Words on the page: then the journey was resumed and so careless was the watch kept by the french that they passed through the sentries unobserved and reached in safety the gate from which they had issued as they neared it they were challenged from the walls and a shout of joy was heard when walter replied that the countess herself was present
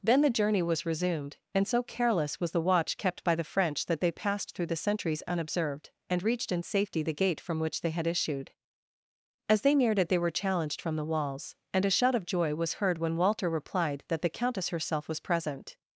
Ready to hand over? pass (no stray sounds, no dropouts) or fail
pass